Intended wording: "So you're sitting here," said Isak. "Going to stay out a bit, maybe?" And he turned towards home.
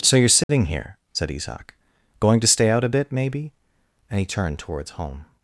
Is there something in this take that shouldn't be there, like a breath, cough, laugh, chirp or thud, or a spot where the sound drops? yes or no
yes